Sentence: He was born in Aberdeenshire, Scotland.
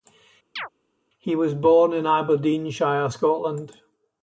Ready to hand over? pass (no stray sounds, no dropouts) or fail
fail